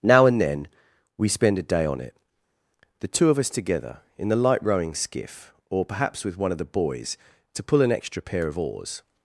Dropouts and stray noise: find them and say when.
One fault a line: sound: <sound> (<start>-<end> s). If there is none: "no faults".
no faults